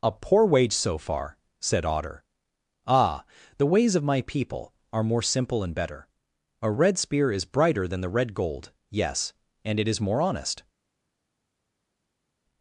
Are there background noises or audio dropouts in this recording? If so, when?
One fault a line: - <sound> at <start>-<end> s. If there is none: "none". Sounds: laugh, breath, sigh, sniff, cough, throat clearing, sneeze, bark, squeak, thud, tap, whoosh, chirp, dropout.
none